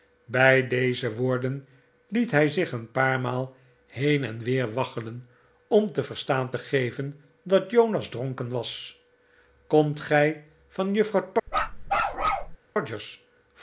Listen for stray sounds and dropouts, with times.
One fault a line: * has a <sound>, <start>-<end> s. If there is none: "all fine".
* has a bark, 11.5-12.6 s